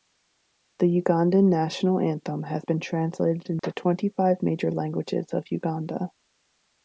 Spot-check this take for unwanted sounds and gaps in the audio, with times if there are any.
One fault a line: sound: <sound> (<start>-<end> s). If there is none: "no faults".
sound: dropout (3.6-3.6 s)